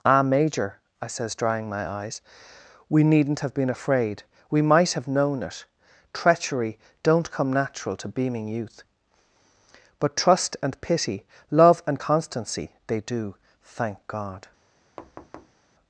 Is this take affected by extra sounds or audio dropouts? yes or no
yes